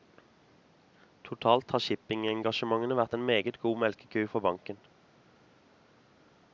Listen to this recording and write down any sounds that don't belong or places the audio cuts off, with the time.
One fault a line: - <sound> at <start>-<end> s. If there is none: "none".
none